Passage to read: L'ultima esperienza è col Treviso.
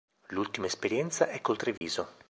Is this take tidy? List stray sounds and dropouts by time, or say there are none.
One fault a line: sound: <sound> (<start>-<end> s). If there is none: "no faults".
sound: dropout (1.8-1.8 s)